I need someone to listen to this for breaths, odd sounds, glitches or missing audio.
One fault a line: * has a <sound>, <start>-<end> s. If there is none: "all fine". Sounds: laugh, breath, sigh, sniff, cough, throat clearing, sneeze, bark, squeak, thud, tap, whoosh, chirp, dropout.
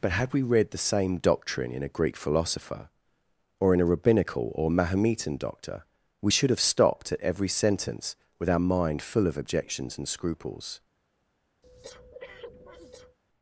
* has a breath, 11.6-13.2 s